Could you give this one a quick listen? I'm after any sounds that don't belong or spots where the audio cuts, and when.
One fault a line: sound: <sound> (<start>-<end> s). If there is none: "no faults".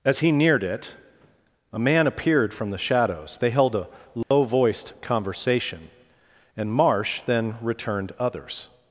sound: dropout (4.2-4.3 s)